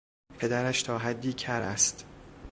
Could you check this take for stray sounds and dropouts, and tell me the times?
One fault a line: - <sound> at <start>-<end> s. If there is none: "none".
none